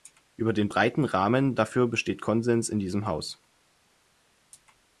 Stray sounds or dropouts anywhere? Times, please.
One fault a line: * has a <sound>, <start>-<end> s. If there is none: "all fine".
all fine